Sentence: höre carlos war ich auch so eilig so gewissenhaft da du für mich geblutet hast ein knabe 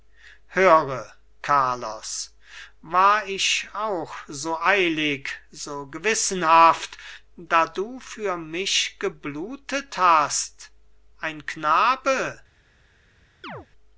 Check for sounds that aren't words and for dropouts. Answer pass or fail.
fail